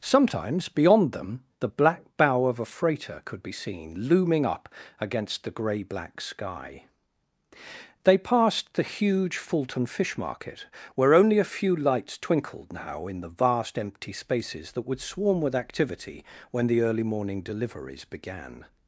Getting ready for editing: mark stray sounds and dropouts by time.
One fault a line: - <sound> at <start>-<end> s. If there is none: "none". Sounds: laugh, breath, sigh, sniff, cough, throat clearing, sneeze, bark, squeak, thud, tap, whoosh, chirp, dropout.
none